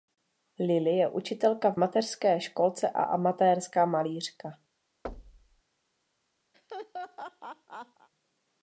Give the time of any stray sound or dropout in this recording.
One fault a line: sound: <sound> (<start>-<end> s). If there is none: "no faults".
sound: thud (5.0-5.6 s)
sound: laugh (6.5-8.1 s)